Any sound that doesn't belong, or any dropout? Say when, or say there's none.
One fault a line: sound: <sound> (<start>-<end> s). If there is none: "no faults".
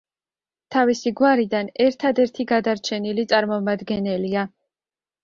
no faults